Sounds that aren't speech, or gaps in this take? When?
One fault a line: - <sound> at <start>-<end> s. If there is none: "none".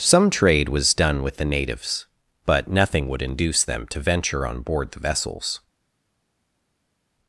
none